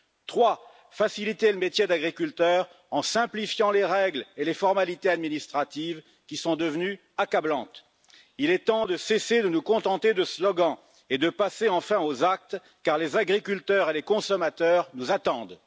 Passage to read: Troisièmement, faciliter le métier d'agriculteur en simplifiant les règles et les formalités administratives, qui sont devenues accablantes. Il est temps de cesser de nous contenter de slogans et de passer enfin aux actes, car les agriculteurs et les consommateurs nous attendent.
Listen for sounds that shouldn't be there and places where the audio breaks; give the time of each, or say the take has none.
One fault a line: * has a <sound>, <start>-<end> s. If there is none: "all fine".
all fine